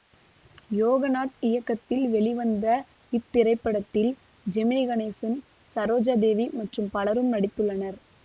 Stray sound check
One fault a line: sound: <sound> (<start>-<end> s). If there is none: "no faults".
no faults